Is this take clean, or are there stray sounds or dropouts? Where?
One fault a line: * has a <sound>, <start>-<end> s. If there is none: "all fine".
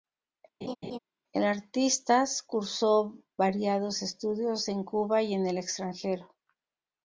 * has a laugh, 0.6-1.0 s